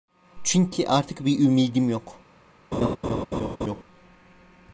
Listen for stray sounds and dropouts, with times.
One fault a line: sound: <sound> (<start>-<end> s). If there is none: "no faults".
sound: laugh (2.7-3.8 s)